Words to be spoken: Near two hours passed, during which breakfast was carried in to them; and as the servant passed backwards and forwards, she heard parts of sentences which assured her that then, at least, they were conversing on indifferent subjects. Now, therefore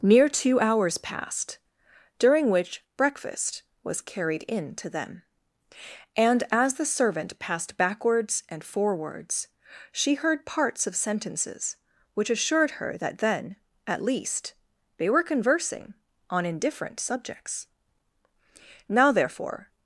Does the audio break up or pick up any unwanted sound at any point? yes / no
no